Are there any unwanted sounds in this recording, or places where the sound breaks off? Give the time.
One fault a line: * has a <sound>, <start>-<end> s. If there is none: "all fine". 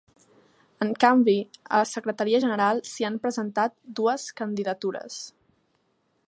all fine